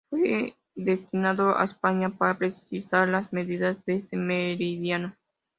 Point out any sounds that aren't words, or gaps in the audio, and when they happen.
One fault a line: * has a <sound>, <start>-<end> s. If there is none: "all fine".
all fine